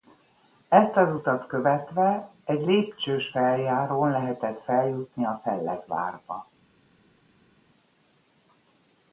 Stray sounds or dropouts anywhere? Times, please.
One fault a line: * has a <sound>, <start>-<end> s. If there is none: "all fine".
all fine